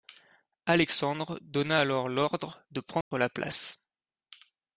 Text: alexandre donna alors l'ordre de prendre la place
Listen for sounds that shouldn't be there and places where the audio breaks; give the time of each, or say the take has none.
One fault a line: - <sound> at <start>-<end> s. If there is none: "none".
- dropout at 3.0-3.1 s